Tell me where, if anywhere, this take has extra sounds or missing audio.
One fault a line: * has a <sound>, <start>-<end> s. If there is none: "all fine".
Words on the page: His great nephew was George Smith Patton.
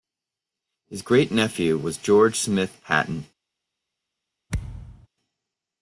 * has a thud, 4.5-5.1 s